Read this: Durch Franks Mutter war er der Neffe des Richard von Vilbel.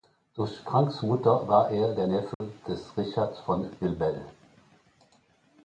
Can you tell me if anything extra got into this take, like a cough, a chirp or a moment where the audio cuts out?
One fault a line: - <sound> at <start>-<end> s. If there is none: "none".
- dropout at 2.3-2.4 s